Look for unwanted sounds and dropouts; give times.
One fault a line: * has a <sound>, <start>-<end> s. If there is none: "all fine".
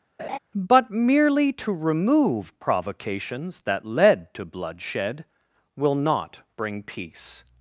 * has a laugh, 0.2-0.4 s